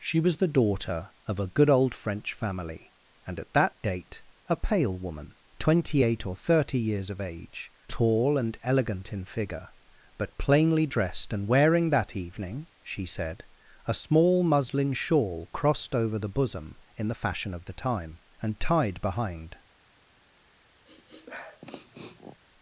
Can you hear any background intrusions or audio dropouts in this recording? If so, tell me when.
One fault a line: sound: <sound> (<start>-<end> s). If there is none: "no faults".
sound: sniff (20.8-22.4 s)